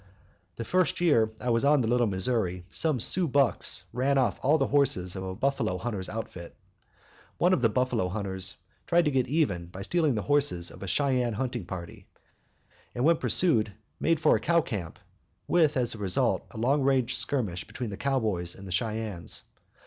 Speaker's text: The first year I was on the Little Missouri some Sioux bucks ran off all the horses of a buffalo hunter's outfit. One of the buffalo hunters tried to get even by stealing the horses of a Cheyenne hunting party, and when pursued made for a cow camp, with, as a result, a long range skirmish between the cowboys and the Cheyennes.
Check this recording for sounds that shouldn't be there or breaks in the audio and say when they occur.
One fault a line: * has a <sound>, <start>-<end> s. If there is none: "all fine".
all fine